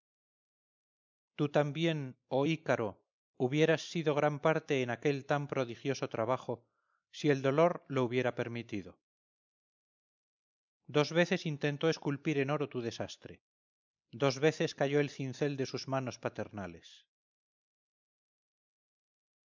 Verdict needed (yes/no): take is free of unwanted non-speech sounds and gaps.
yes